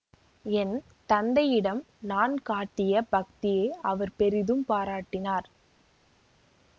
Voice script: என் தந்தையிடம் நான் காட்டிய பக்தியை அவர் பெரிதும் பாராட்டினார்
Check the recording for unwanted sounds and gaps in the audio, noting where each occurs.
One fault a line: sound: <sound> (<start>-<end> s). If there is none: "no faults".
no faults